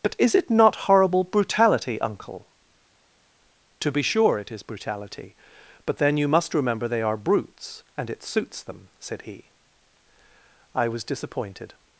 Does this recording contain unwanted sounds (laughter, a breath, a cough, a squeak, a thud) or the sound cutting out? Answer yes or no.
no